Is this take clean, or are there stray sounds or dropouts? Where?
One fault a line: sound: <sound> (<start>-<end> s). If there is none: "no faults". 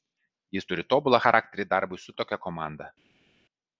no faults